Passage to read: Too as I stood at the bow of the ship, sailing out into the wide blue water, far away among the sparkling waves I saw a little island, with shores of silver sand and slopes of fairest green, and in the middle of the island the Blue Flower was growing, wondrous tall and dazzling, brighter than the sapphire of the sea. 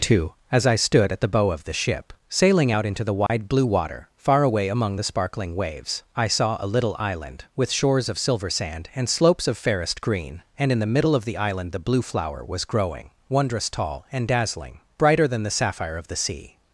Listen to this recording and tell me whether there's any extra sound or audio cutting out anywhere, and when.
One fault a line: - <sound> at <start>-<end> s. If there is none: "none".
- dropout at 3.3-3.3 s